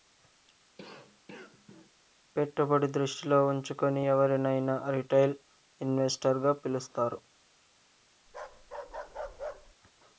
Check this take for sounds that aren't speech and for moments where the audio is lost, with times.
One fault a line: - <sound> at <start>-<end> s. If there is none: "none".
- cough at 0.8-1.9 s
- bark at 8.3-9.8 s